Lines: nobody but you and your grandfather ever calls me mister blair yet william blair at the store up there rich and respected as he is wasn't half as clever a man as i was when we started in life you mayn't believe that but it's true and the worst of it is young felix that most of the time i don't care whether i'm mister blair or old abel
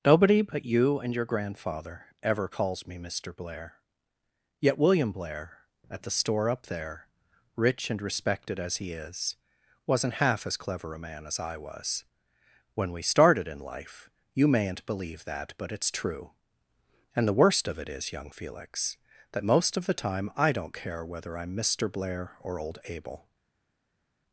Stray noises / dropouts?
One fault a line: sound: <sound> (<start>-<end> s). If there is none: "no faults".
no faults